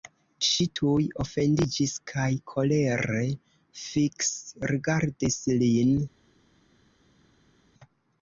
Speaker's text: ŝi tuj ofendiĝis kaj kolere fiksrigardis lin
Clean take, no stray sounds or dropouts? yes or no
yes